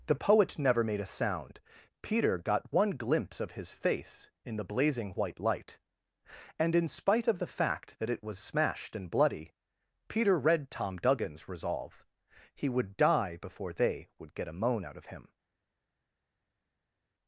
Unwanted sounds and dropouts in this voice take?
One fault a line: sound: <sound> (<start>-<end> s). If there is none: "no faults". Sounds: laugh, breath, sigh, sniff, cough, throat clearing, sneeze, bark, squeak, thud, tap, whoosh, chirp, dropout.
no faults